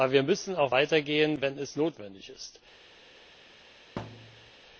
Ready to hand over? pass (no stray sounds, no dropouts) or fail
fail